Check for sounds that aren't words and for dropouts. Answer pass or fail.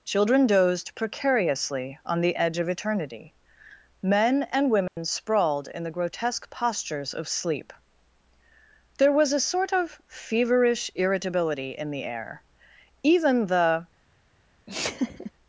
fail